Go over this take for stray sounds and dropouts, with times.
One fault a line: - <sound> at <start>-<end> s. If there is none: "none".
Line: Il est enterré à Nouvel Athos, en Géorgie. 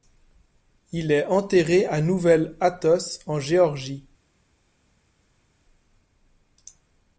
none